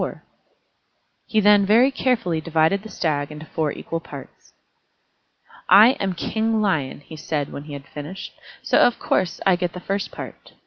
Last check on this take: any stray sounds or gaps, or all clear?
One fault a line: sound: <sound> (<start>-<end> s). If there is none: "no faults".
no faults